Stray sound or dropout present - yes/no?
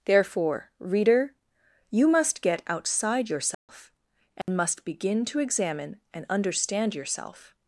yes